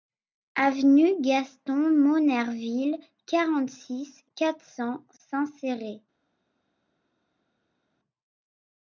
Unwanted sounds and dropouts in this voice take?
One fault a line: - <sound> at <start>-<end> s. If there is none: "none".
none